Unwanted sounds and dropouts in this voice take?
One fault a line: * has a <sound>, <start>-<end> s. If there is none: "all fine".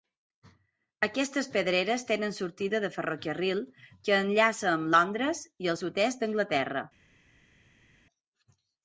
all fine